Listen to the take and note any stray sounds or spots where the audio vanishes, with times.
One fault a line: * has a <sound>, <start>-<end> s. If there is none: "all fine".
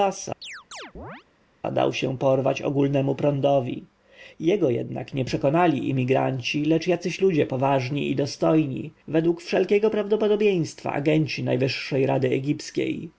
* has a chirp, 0.4-1.2 s